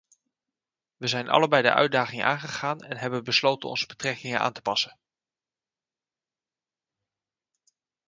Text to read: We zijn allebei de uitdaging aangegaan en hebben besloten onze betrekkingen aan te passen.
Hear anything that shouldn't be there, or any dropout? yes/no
no